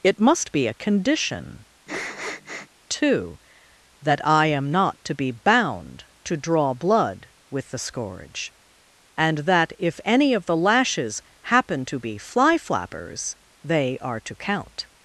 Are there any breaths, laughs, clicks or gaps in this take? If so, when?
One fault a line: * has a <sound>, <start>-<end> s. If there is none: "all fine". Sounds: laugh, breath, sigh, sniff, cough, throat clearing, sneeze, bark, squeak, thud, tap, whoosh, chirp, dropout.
* has a sniff, 1.9-2.7 s